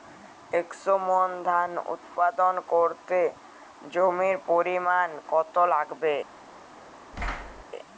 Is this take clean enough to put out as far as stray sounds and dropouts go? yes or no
no